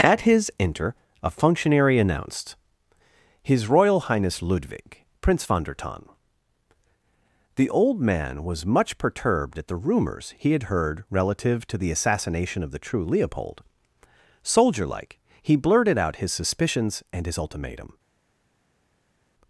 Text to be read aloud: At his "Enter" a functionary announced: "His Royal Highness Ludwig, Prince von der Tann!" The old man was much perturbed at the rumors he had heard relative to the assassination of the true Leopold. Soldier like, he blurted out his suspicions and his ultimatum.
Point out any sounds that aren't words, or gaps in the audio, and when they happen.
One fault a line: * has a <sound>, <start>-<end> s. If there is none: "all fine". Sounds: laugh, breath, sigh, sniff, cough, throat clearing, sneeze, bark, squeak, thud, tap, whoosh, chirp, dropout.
all fine